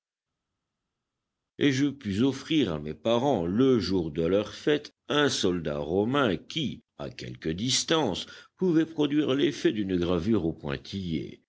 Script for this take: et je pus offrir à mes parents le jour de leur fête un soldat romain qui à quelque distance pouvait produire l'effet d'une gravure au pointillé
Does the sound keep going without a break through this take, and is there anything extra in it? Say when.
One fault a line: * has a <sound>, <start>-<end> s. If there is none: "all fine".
all fine